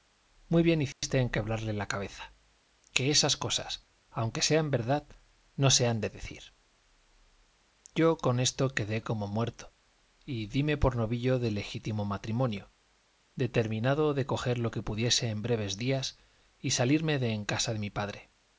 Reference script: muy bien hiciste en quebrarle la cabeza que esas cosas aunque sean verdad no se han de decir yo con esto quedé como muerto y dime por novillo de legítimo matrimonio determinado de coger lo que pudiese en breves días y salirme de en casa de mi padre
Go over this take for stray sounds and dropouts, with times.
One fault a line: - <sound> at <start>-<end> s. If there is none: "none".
- dropout at 0.9-1.0 s